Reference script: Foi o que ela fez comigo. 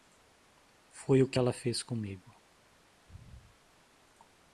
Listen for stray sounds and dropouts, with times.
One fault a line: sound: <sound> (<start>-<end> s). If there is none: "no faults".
no faults